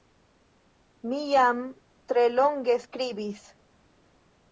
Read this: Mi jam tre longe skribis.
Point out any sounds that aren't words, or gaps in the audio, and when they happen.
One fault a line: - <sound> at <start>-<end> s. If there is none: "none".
none